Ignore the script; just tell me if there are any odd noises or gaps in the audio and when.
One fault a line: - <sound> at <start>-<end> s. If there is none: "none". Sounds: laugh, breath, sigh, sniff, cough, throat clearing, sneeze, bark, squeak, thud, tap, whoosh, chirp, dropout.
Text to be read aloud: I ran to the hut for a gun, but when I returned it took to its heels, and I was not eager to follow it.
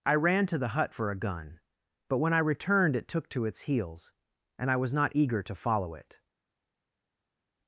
none